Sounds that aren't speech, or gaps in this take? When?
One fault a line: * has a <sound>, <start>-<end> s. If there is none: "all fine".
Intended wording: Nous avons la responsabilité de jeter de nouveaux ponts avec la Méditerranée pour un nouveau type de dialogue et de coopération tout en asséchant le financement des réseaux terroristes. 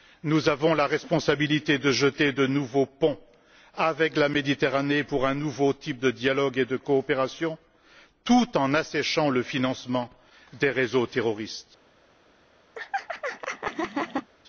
* has a laugh, 12.7-14.3 s